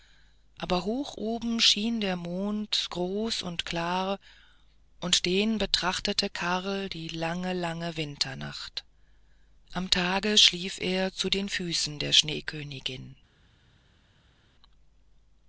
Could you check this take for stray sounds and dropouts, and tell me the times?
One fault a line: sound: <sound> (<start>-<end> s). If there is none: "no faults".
no faults